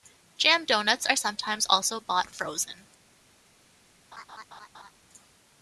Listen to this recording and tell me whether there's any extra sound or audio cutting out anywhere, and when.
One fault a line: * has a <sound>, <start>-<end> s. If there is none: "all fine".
* has a laugh, 4.1-4.9 s